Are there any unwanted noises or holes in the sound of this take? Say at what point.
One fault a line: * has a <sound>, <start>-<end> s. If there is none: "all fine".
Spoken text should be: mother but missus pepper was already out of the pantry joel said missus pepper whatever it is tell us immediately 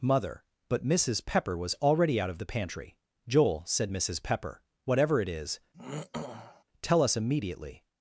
* has a throat clearing, 5.7-6.6 s